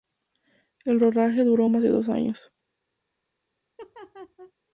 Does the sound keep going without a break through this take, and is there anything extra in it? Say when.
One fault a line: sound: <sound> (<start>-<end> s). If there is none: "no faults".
sound: laugh (3.8-4.5 s)